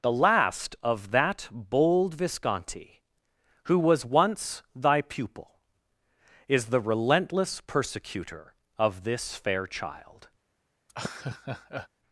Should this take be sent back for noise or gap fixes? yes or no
yes